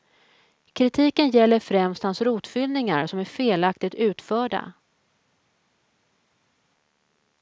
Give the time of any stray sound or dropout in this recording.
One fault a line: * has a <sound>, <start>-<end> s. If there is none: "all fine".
all fine